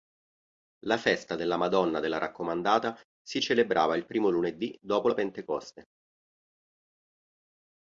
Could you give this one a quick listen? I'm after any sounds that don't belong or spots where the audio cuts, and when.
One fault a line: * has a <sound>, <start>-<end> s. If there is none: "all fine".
all fine